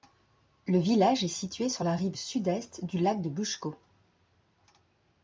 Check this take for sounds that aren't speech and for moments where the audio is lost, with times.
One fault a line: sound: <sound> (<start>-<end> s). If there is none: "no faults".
no faults